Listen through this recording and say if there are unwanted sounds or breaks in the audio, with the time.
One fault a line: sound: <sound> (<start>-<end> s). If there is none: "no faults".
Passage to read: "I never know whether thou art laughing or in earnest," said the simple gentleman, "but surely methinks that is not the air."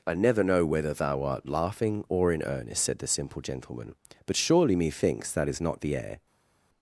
no faults